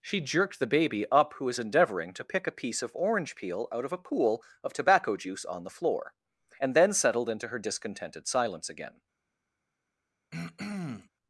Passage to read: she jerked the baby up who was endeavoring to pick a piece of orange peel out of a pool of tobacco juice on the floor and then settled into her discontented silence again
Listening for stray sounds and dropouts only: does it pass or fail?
fail